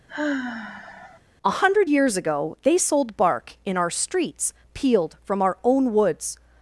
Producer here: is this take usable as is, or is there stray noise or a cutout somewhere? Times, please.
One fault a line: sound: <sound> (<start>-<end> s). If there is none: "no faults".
sound: sigh (0.1-1.2 s)